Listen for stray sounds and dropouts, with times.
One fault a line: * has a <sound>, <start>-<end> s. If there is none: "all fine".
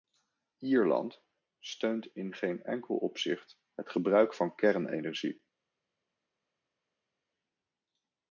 all fine